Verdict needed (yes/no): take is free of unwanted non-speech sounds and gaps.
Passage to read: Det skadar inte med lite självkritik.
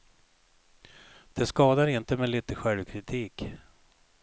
yes